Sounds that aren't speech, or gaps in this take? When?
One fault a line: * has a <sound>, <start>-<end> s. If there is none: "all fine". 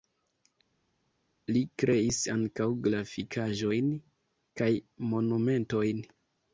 all fine